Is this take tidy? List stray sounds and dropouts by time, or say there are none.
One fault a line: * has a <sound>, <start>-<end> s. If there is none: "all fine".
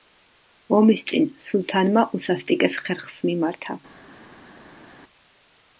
all fine